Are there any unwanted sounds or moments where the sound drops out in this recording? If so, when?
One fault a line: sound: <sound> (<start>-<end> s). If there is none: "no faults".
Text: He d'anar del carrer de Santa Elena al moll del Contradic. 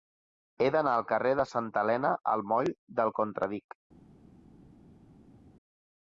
no faults